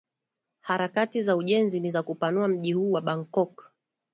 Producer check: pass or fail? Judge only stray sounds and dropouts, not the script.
pass